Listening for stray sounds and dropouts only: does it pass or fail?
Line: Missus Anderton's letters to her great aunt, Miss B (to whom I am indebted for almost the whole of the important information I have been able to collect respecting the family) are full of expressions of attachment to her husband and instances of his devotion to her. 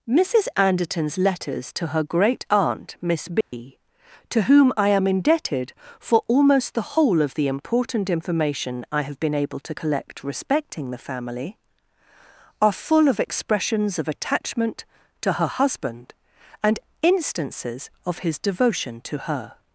fail